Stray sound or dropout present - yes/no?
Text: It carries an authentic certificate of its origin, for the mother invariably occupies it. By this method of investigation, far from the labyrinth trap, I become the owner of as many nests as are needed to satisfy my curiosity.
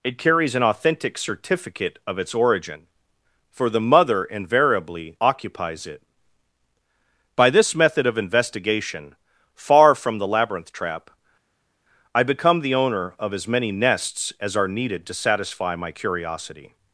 no